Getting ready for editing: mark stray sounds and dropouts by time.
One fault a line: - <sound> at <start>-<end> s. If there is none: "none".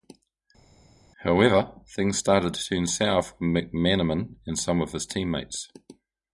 none